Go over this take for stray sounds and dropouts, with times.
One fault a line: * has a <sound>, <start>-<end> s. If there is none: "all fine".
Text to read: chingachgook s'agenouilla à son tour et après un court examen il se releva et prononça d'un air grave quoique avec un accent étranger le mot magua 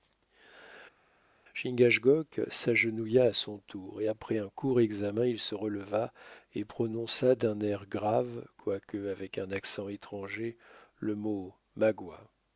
all fine